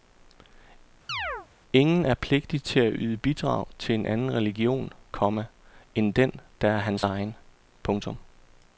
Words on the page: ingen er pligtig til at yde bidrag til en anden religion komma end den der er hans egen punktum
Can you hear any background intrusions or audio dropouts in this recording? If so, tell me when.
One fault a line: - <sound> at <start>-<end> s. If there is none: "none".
- chirp at 1.1-1.5 s